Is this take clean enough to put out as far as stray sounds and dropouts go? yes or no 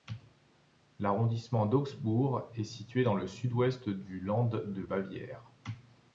yes